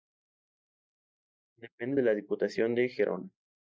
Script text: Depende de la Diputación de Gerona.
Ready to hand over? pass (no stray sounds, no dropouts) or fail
pass